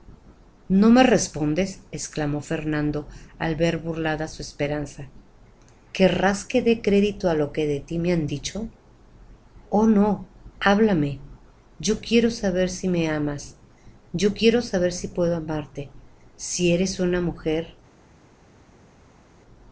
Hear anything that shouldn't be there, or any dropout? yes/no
no